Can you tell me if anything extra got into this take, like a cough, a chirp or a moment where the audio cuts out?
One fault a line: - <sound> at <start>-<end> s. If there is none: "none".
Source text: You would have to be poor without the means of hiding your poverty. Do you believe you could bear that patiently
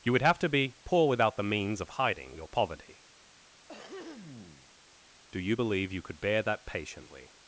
- throat clearing at 3.7-4.7 s